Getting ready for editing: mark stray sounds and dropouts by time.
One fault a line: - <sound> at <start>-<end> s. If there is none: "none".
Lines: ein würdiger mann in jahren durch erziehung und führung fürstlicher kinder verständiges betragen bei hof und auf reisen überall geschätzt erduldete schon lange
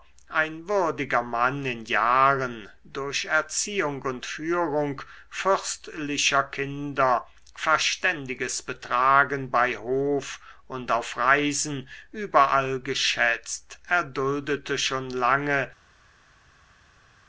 none